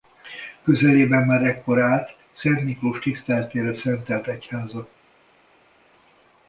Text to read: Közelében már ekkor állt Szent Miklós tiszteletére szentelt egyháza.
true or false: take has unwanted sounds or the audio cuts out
false